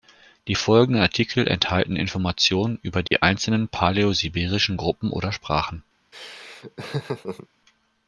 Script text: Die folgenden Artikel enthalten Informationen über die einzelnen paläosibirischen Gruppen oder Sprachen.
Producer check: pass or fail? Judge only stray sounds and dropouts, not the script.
fail